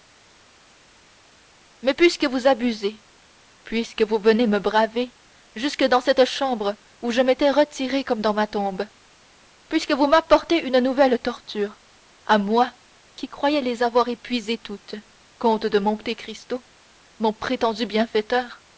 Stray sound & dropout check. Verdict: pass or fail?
pass